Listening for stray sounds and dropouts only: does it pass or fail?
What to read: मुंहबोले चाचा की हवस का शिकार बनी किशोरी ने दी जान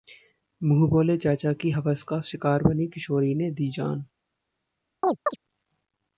fail